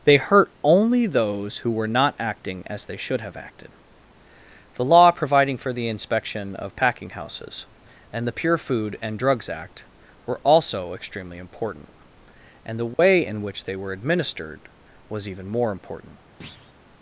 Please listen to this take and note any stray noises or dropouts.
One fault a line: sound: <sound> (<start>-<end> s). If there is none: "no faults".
sound: dropout (12.9-13.0 s)
sound: thud (16.4-16.7 s)